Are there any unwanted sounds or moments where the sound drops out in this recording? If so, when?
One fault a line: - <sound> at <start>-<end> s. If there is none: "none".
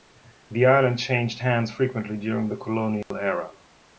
- dropout at 3.0-3.1 s